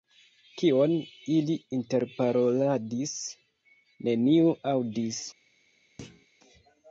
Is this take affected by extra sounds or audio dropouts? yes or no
yes